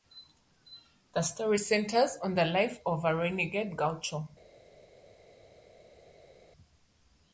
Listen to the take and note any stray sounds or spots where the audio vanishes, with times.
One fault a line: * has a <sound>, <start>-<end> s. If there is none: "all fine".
all fine